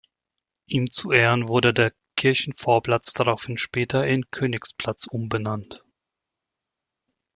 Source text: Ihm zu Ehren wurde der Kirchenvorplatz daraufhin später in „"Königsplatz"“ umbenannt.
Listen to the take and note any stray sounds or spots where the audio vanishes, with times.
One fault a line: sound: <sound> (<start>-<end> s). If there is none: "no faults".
no faults